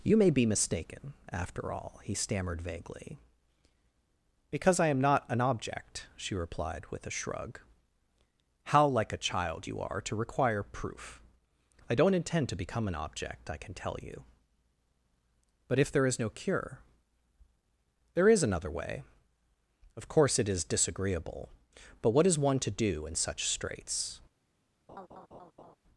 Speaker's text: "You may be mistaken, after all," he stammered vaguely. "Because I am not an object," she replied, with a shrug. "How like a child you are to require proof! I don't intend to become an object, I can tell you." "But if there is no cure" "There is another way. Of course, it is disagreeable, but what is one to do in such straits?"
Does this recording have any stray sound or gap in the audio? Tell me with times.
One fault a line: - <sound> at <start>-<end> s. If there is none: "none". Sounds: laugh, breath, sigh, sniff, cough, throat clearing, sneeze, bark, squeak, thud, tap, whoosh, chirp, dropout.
- laugh at 24.9-25.8 s